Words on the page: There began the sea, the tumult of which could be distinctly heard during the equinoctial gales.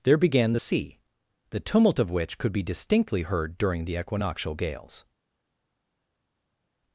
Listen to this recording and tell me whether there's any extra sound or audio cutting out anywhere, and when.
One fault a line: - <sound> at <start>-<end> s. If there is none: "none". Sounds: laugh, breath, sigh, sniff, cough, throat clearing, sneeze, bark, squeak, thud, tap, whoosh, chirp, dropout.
none